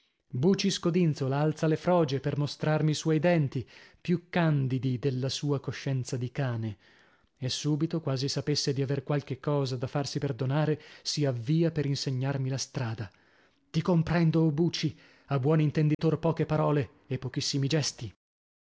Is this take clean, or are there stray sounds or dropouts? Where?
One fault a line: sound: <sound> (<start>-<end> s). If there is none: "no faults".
sound: dropout (15.9-16.0 s)